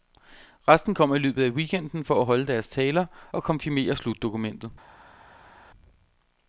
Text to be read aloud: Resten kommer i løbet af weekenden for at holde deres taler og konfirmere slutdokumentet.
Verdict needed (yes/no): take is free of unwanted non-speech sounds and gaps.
yes